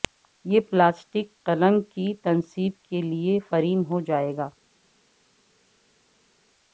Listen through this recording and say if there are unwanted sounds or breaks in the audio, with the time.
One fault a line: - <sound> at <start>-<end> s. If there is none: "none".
none